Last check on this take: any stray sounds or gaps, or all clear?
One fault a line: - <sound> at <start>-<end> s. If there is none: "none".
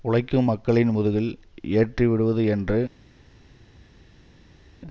none